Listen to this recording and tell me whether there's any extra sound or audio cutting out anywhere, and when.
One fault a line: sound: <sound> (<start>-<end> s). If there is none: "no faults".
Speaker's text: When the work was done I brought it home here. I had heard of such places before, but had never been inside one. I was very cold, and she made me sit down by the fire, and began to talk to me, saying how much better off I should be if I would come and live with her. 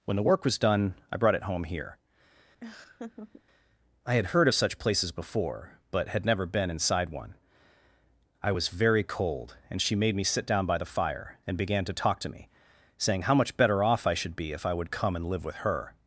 sound: laugh (2.6-3.4 s)